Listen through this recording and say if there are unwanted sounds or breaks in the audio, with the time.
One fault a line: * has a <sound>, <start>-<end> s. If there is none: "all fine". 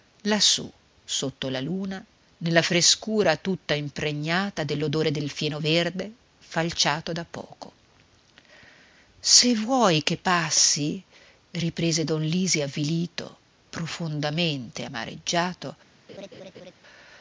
* has a laugh, 16.1-16.7 s